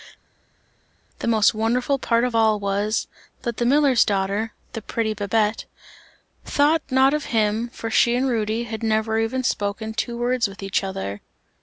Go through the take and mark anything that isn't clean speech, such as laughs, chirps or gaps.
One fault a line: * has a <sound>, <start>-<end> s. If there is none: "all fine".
all fine